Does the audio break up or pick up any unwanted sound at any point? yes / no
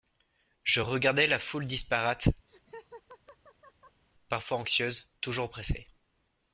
yes